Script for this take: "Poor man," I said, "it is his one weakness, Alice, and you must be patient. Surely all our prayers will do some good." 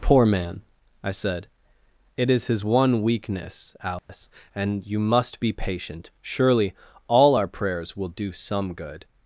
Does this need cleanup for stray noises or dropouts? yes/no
yes